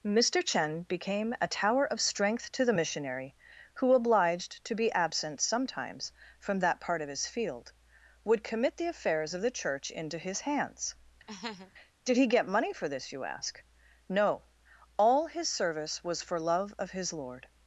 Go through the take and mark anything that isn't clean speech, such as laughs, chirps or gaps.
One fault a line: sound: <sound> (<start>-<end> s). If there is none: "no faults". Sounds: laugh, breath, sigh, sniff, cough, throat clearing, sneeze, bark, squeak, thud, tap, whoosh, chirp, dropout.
sound: laugh (11.3-11.7 s)